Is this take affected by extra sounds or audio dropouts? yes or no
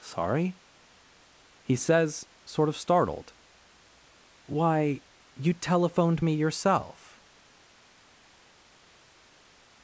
no